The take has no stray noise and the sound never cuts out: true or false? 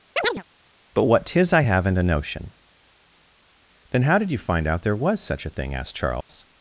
false